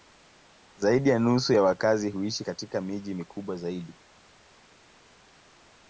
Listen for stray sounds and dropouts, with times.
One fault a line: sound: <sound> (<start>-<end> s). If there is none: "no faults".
no faults